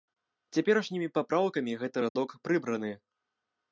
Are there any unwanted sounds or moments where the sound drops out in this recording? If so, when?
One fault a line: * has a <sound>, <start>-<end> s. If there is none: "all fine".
* has a dropout, 2.1-2.2 s